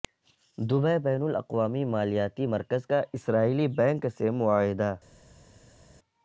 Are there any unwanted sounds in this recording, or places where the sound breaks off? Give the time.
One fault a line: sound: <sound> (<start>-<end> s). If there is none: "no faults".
no faults